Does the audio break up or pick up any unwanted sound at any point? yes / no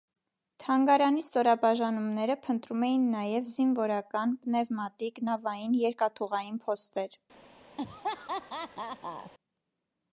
yes